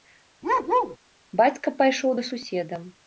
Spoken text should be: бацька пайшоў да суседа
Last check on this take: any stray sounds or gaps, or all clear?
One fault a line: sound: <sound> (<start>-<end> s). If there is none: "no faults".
sound: bark (0.4-1.0 s)